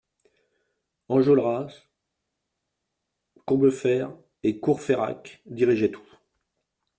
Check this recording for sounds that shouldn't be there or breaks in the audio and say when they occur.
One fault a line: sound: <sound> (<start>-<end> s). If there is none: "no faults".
no faults